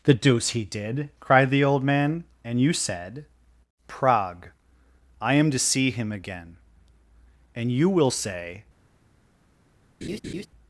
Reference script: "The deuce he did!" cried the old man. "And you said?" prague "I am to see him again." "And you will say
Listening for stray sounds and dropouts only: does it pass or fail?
fail